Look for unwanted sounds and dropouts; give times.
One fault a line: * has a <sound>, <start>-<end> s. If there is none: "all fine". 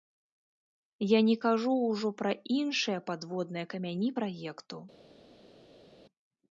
all fine